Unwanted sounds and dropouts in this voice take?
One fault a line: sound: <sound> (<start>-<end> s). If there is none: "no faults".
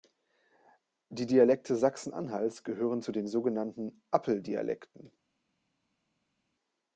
no faults